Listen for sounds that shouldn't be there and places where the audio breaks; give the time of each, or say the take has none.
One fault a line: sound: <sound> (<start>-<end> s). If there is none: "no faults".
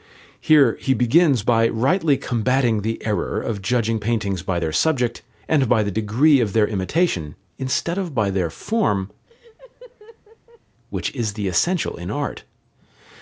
sound: laugh (9.3-10.6 s)